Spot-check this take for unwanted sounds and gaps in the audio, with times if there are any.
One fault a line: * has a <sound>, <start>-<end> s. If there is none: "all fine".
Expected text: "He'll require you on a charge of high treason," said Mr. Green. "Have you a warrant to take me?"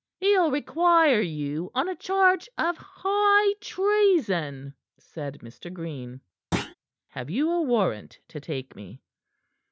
* has a thud, 6.5-6.7 s